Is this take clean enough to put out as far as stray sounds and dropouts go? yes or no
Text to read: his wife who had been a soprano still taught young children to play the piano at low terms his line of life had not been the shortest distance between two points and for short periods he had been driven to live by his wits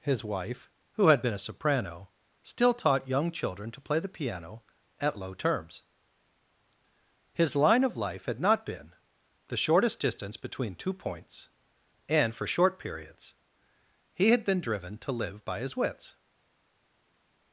yes